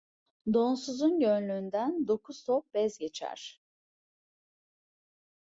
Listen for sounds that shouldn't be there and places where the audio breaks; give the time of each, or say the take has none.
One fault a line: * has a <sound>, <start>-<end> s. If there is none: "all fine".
all fine